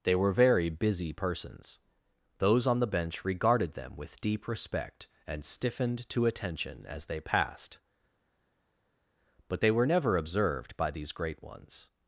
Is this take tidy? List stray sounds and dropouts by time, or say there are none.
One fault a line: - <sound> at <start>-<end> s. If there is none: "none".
none